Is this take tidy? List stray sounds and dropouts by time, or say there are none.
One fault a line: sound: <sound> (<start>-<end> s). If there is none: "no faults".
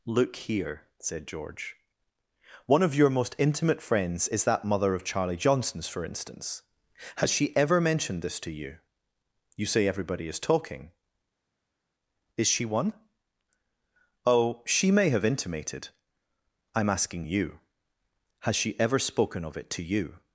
no faults